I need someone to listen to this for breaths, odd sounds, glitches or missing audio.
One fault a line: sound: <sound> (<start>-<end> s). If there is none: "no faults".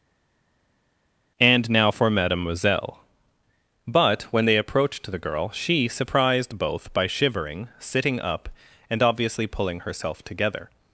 no faults